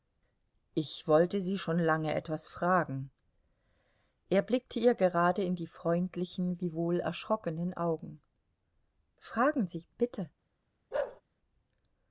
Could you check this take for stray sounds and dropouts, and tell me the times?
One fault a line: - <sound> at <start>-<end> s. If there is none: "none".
- bark at 10.9-11.2 s